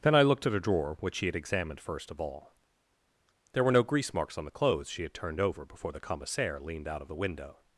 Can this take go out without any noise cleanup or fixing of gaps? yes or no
yes